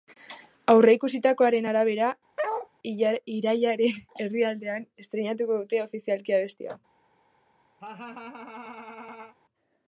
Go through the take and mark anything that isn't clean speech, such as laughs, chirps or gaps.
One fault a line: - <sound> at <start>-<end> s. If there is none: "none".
- bark at 2.4-2.7 s
- laugh at 7.8-9.4 s